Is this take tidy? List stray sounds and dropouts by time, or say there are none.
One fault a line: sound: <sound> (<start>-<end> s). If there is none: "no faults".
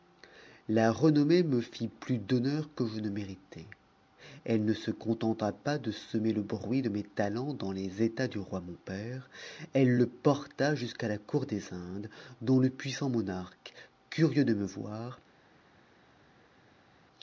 no faults